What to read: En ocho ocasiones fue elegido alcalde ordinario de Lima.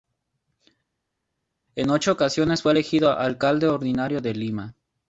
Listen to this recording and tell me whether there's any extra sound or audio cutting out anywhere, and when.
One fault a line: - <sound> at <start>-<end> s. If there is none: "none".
none